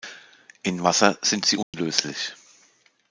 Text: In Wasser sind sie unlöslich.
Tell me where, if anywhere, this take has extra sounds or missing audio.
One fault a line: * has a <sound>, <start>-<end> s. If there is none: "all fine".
* has a dropout, 1.6-1.7 s